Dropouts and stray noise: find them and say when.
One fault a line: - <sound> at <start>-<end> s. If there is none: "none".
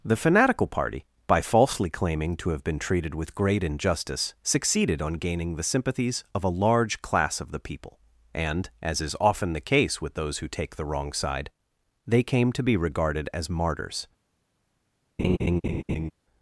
- laugh at 15.2-16.1 s